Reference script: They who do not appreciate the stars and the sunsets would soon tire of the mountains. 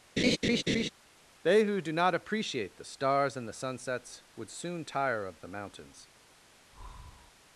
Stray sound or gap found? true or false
true